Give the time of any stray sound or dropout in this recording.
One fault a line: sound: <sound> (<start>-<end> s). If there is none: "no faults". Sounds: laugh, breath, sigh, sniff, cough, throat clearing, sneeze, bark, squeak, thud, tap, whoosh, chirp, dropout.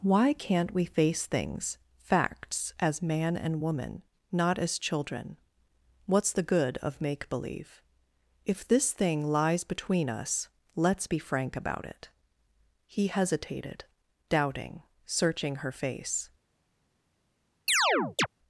sound: chirp (17.7-18.3 s)